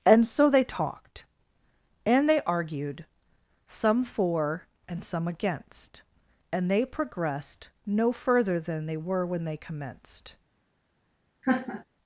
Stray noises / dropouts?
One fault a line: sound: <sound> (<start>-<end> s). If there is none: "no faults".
sound: laugh (11.4-11.8 s)